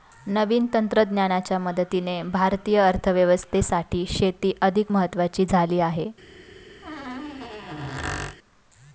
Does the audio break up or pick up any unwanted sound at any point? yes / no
yes